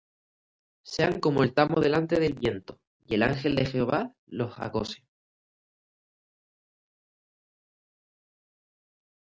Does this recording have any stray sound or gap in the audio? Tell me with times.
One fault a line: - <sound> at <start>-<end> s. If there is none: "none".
none